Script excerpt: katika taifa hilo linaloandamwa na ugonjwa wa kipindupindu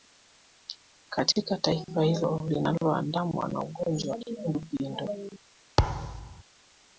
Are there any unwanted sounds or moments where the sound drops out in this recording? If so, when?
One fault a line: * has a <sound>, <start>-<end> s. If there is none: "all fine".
* has a thud, 5.8-6.4 s